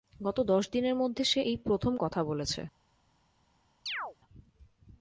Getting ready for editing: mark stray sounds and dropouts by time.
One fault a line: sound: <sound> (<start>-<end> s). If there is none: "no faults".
sound: chirp (3.9-4.2 s)